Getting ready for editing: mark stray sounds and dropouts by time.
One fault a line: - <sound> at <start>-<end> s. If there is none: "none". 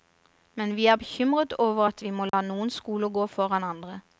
- dropout at 2.3-2.3 s